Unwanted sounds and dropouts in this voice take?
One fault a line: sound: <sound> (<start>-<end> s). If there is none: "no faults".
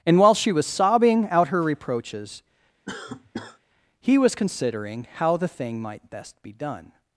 sound: cough (2.9-3.6 s)